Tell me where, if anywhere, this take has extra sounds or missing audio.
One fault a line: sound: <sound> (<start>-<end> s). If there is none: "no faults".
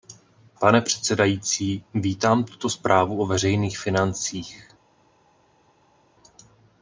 no faults